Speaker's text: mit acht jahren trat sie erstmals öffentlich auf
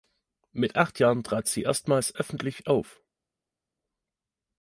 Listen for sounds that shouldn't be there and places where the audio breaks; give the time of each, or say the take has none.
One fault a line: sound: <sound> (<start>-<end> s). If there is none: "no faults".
no faults